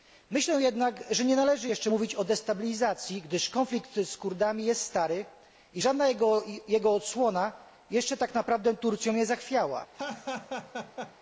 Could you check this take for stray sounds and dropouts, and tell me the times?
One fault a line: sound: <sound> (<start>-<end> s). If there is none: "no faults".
sound: laugh (9.9-11.2 s)